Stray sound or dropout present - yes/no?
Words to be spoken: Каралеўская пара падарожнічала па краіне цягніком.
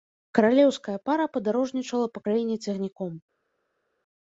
no